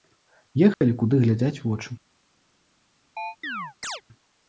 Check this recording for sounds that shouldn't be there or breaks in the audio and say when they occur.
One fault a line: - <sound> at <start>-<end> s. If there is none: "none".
- dropout at 0.7-0.8 s
- chirp at 3.2-4.0 s